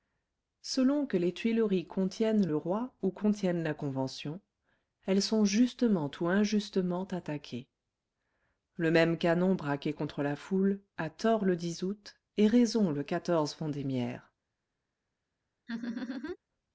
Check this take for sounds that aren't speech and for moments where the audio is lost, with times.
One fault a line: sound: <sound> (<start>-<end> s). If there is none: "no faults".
sound: laugh (15.7-16.4 s)